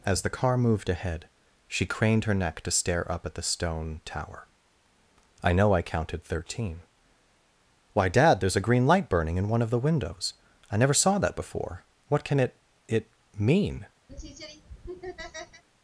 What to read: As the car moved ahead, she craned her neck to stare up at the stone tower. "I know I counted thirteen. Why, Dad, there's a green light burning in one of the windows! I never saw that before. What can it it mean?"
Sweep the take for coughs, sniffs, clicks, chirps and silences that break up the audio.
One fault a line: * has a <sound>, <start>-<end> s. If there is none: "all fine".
* has a laugh, 14.1-15.6 s